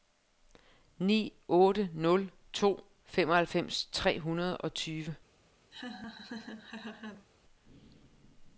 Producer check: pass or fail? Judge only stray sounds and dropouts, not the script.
fail